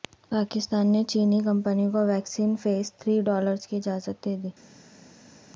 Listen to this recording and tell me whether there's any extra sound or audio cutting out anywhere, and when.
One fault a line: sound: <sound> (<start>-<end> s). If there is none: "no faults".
no faults